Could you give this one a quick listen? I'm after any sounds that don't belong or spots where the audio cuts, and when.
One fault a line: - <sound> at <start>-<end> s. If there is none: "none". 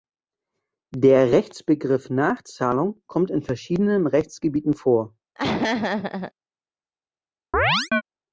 - laugh at 5.4-6.3 s
- chirp at 7.5-8.0 s